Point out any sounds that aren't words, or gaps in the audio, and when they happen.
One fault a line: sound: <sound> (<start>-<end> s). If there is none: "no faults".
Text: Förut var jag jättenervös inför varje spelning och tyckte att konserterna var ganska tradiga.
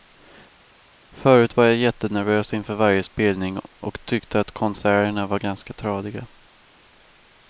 no faults